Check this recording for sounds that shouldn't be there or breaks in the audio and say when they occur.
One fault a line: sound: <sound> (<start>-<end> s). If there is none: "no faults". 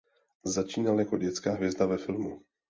no faults